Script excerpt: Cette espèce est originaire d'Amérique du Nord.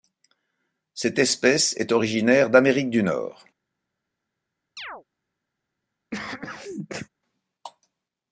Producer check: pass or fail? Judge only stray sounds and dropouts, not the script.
fail